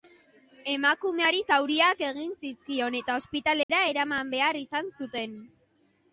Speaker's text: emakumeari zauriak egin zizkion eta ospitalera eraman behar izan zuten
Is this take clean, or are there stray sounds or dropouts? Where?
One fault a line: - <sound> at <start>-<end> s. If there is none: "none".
- dropout at 3.6-3.7 s